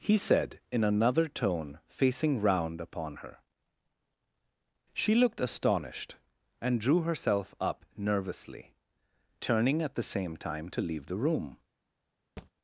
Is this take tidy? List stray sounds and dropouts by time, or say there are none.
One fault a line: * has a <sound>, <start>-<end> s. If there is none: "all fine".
* has a thud, 12.4-12.5 s